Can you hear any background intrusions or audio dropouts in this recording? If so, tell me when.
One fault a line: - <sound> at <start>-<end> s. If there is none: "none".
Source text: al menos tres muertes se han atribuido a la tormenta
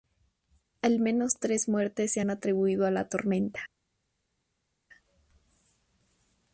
none